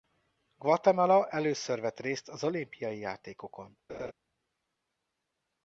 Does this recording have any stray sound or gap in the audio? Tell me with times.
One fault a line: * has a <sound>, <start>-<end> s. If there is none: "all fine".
* has a laugh, 3.9-4.1 s